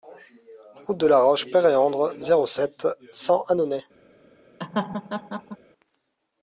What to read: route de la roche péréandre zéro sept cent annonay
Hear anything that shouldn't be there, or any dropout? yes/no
yes